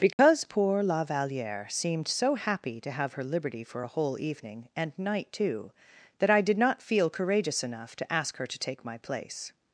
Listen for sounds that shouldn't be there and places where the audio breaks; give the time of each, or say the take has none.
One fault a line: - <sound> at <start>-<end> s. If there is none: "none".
- dropout at 0.1-0.2 s